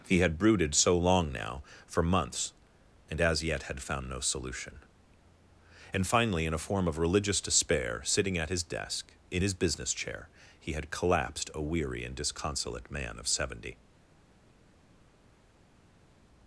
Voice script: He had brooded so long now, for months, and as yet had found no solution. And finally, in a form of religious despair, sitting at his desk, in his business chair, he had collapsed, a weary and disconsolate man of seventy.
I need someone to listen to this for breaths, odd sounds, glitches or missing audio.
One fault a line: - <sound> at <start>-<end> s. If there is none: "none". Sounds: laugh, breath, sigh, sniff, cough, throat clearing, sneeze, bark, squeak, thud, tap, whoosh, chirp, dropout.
none